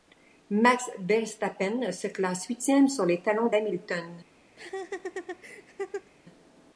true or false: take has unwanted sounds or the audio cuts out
true